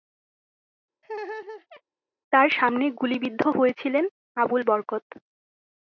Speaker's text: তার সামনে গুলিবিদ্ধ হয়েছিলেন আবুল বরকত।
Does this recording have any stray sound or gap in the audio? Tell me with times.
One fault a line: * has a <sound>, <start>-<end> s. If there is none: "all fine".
* has a laugh, 1.0-1.8 s